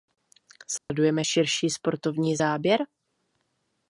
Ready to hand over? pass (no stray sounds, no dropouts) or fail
fail